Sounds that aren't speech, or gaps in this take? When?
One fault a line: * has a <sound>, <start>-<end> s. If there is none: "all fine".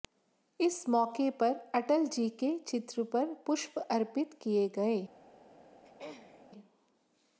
* has a throat clearing, 5.8-6.4 s